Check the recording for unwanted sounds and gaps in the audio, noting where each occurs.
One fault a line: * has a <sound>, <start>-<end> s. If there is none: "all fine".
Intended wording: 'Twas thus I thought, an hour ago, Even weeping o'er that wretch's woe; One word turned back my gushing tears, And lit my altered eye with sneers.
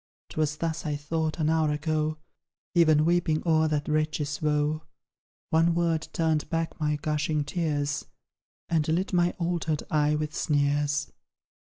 all fine